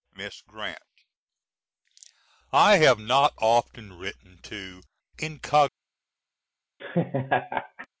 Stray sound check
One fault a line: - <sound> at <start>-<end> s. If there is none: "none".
- laugh at 6.8-7.9 s